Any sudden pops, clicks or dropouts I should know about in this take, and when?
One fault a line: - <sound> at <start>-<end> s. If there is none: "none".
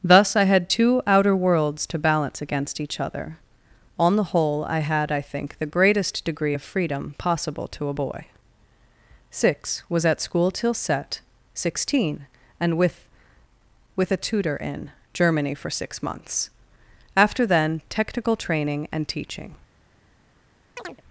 - chirp at 20.8-21.0 s